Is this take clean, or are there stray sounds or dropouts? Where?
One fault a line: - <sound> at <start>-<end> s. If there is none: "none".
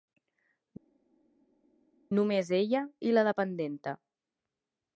none